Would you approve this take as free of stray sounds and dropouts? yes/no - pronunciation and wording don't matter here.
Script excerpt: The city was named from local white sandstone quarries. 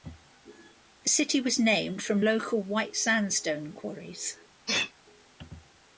no